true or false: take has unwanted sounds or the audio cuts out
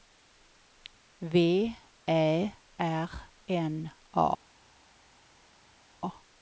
false